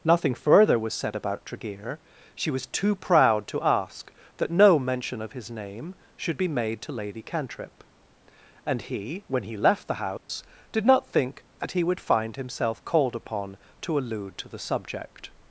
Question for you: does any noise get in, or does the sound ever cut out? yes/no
yes